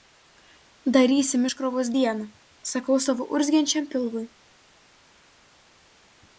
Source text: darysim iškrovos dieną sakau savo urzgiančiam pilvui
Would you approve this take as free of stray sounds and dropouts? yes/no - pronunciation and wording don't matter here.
yes